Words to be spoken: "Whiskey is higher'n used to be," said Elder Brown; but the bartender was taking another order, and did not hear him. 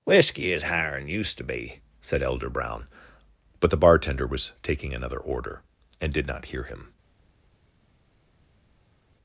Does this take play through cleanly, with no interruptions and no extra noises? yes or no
yes